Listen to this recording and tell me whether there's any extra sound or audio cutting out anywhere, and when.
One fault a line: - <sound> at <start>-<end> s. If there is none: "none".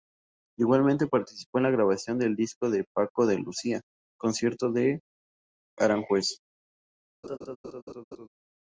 - laugh at 7.2-8.3 s